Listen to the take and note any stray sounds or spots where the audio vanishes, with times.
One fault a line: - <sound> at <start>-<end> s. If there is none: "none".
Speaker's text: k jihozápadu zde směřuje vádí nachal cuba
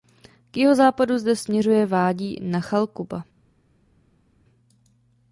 none